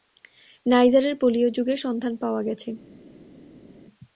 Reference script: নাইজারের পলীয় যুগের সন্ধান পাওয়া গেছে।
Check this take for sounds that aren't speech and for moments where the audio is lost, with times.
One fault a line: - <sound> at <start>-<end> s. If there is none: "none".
none